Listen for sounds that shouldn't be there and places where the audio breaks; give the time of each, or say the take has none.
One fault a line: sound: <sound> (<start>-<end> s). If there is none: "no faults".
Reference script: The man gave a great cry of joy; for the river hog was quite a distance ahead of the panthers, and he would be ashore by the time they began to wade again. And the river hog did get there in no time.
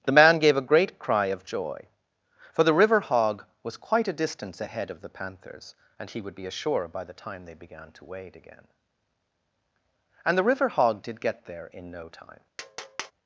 sound: tap (12.6-13.1 s)